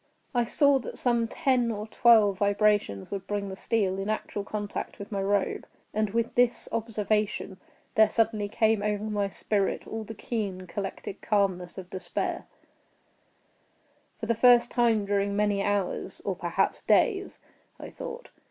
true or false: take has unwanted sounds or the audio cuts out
false